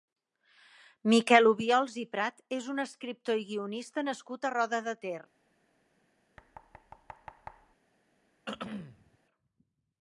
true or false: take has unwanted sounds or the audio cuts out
true